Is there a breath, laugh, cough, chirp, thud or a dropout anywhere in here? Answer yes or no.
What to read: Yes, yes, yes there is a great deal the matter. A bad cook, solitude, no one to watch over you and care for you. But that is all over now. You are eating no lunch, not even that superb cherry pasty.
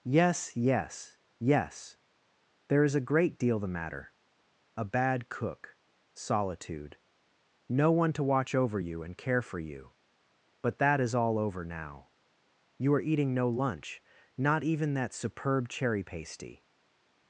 no